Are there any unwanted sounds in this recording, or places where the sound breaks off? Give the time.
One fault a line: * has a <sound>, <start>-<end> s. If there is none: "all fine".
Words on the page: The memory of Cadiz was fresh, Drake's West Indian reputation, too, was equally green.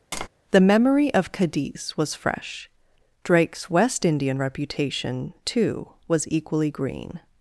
* has a tap, 0.1-0.3 s